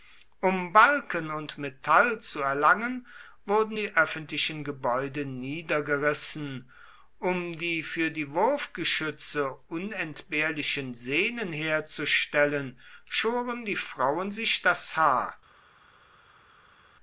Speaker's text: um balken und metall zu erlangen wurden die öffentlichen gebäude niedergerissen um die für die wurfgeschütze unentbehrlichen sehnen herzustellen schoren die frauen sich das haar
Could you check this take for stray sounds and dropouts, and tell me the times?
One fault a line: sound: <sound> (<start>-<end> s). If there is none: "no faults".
no faults